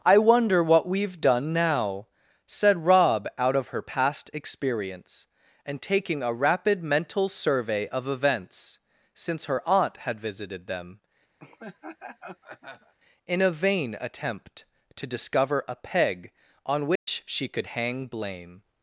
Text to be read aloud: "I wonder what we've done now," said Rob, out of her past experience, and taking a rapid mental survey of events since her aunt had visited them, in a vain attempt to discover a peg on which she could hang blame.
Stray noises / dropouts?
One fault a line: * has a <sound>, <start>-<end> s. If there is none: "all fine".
* has a laugh, 11.4-12.9 s
* has a dropout, 17.0-17.1 s